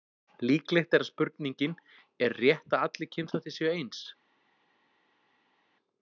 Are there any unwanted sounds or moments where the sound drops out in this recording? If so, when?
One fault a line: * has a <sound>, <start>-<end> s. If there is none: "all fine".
all fine